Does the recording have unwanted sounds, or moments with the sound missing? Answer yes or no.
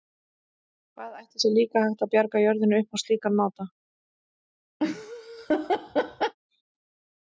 yes